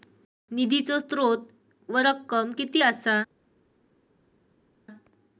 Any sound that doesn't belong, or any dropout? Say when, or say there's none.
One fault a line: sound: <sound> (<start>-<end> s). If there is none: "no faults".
no faults